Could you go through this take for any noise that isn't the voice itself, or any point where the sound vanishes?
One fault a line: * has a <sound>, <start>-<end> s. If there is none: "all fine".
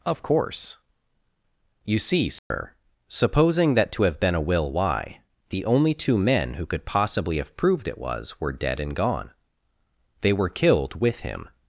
* has a dropout, 2.4-2.5 s